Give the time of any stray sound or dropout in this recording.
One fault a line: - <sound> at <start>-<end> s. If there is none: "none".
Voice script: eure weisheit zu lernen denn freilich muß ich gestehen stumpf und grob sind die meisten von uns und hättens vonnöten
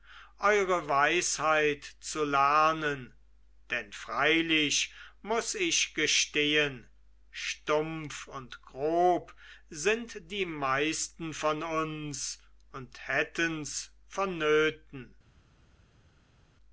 none